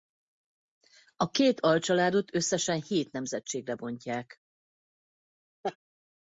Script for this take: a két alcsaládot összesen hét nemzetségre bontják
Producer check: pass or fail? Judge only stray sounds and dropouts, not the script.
fail